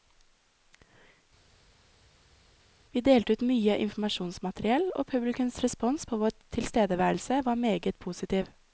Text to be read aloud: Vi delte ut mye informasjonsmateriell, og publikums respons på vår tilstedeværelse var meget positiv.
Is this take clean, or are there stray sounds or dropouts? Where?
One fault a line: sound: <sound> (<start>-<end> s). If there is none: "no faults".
no faults